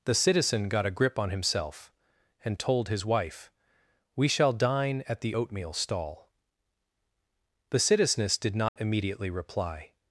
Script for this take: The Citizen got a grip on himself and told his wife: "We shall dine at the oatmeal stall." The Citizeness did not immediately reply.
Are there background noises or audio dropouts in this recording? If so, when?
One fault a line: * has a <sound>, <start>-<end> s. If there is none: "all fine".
* has a dropout, 8.7-8.8 s